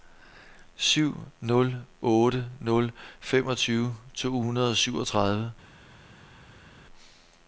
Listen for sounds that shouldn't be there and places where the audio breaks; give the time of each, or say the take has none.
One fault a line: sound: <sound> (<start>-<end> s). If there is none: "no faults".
no faults